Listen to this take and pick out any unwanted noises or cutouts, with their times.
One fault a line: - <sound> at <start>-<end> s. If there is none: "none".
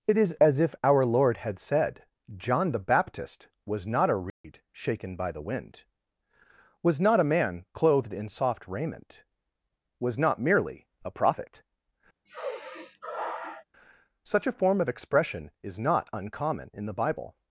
- dropout at 4.3-4.4 s
- sigh at 12.3-13.7 s